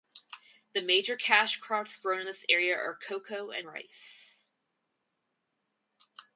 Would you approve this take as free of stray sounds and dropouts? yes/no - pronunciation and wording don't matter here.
yes